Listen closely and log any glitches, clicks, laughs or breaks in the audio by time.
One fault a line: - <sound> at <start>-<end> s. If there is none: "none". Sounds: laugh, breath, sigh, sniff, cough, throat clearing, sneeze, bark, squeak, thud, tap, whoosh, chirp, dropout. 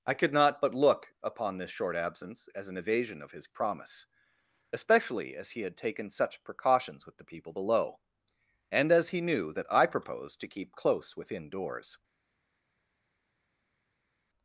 none